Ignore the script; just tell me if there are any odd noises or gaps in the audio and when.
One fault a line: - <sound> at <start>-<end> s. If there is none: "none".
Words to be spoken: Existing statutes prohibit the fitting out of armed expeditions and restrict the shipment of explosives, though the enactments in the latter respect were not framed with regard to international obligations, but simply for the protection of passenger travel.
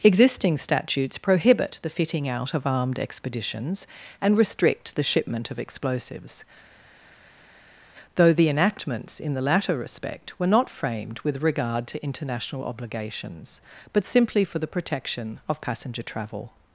none